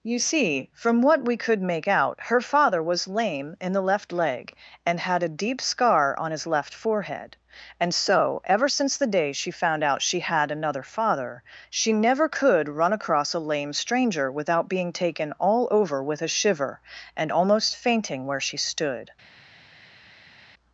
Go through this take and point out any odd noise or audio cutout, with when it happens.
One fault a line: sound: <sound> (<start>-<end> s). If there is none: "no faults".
no faults